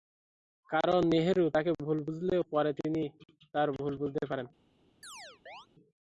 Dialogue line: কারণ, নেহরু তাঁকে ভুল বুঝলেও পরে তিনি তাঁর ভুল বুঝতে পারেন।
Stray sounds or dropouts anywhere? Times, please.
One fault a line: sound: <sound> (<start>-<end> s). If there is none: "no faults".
sound: chirp (5.0-5.7 s)